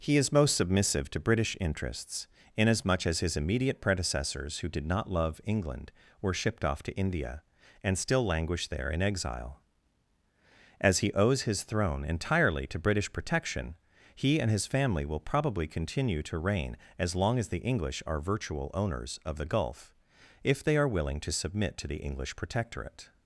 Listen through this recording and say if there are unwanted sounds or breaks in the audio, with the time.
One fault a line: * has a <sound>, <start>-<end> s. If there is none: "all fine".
all fine